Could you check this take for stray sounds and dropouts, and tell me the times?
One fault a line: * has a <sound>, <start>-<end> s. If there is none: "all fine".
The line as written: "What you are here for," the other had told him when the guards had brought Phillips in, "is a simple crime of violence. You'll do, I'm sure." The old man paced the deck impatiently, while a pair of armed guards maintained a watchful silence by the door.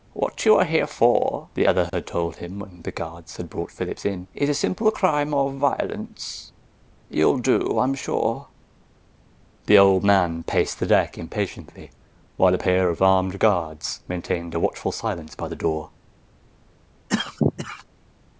* has a dropout, 1.9-1.9 s
* has a cough, 17.1-17.8 s